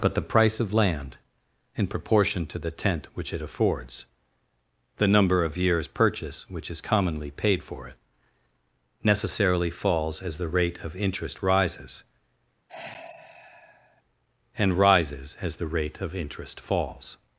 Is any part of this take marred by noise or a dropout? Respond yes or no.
yes